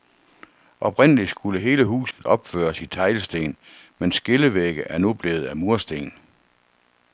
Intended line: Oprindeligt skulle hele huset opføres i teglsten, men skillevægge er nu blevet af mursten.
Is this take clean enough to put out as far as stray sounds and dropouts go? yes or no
no